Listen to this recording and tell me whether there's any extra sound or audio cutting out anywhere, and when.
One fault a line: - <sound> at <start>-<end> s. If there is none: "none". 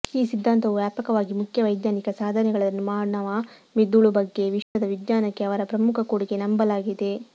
- dropout at 4.6-4.8 s